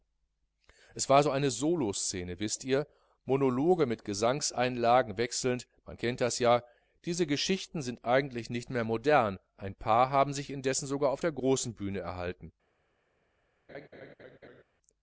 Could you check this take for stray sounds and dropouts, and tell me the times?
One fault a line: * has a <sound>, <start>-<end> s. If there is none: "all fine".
* has a laugh, 13.7-14.6 s